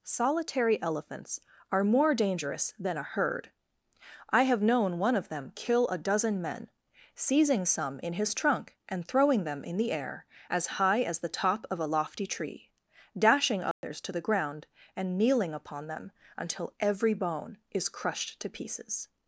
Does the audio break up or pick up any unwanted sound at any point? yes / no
yes